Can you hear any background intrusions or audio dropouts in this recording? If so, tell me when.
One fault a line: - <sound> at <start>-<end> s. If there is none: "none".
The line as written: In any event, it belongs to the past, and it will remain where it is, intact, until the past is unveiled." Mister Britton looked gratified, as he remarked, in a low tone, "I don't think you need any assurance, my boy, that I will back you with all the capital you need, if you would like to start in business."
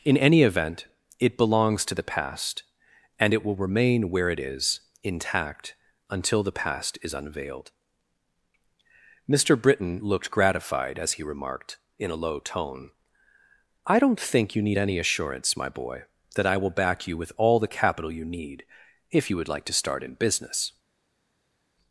none